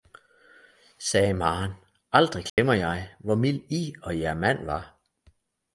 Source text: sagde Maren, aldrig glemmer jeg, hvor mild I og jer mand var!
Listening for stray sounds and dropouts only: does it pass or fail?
fail